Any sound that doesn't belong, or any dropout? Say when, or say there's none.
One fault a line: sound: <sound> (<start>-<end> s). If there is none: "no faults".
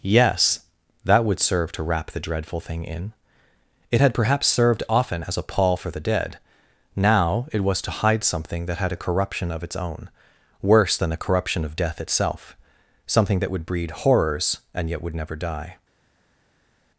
no faults